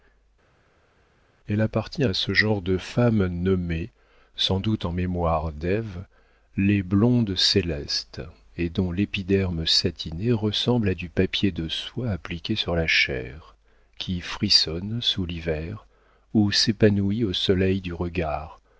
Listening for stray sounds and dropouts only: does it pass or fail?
pass